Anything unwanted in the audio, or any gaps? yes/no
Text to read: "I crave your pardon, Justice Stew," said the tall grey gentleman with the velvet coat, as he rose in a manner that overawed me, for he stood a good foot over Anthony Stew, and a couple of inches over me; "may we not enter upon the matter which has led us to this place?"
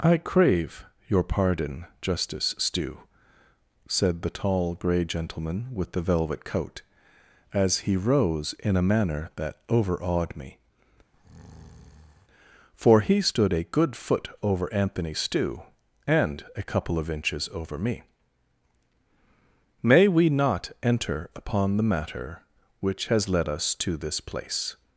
yes